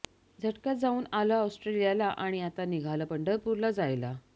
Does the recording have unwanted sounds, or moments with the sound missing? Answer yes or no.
no